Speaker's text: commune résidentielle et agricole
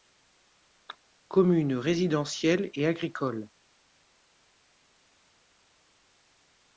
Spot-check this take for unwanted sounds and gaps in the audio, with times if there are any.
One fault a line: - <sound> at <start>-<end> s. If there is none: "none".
none